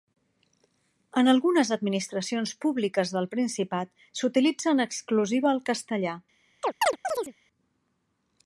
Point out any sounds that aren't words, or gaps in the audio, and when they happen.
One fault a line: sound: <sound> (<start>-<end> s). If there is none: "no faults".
sound: chirp (6.6-7.3 s)